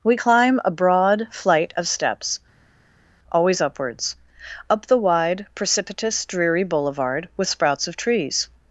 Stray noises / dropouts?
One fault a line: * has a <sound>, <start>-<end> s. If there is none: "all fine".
all fine